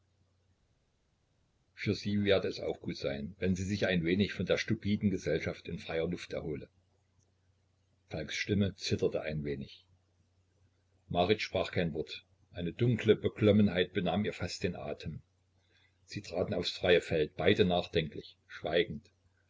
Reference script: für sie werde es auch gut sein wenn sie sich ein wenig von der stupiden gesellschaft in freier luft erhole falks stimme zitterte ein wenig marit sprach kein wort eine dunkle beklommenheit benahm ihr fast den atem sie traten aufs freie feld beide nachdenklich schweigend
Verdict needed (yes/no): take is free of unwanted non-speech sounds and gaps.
yes